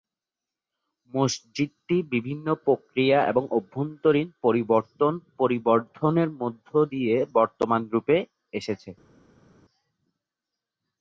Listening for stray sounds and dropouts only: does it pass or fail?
pass